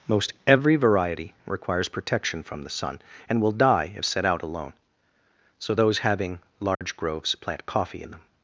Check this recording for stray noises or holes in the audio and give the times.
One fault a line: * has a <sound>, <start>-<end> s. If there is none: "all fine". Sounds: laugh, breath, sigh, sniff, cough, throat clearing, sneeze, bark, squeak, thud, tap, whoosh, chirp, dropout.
* has a dropout, 6.7-6.8 s